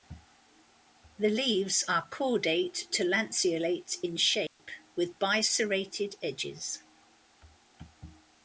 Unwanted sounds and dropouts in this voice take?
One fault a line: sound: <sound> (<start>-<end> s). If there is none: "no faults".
sound: dropout (4.5-4.6 s)